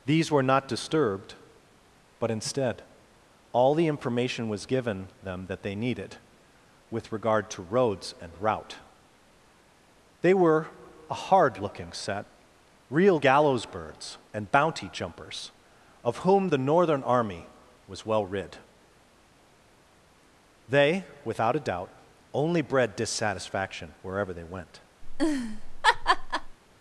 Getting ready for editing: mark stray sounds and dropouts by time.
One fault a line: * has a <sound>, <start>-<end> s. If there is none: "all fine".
* has a laugh, 25.0-26.6 s